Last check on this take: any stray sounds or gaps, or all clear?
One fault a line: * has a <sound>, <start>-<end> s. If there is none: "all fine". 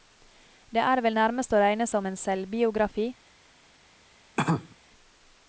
* has a cough, 4.4-4.8 s